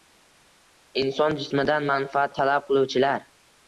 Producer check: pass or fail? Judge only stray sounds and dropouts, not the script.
pass